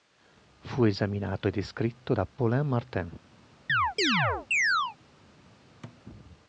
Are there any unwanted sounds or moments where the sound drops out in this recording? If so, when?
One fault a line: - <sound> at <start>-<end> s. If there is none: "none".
- chirp at 3.7-5.0 s
- thud at 5.8-6.0 s